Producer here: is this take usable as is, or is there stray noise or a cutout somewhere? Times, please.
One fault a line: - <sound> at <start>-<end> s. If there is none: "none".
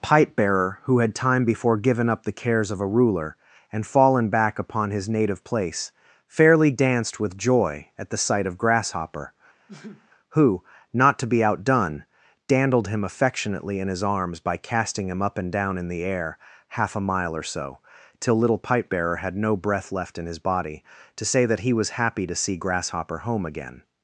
- sneeze at 9.7-10.1 s